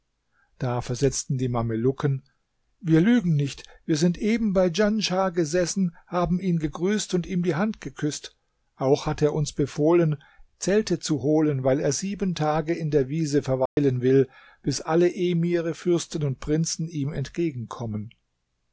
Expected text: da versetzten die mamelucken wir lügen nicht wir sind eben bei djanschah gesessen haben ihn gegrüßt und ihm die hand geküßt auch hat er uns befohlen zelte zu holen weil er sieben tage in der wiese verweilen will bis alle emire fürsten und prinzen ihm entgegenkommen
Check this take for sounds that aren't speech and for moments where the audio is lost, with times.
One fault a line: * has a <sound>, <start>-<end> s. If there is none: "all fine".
* has a dropout, 13.7-13.8 s